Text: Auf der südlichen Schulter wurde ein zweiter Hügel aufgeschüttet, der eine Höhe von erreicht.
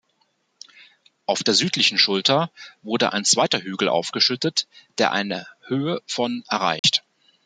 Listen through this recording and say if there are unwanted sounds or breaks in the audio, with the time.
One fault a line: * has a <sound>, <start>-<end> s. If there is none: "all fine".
* has a dropout, 6.8-6.8 s